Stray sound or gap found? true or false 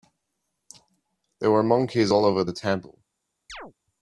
true